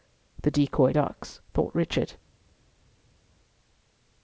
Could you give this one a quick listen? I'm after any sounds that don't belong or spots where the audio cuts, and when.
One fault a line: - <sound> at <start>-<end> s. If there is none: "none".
none